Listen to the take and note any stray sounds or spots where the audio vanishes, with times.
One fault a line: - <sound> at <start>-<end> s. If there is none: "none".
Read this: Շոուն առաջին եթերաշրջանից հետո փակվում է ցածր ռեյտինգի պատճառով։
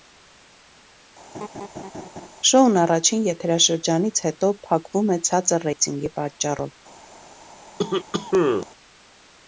- laugh at 1.3-2.3 s
- cough at 7.8-8.7 s